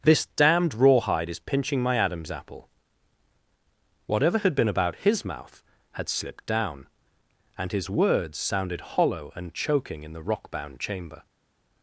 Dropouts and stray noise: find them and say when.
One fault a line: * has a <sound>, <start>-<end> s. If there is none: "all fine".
all fine